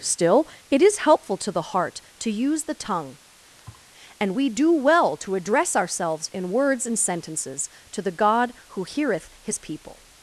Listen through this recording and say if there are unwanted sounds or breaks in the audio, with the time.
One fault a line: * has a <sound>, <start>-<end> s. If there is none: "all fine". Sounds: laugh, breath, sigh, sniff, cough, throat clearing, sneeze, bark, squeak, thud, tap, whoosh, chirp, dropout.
* has a thud, 3.6-3.9 s